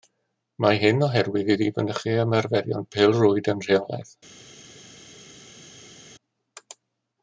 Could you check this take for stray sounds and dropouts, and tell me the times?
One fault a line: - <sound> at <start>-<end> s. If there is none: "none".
none